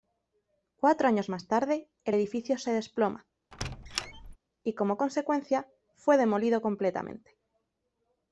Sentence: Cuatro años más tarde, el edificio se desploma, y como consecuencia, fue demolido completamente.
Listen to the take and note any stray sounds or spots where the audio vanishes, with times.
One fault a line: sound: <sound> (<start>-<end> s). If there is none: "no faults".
sound: squeak (3.5-4.4 s)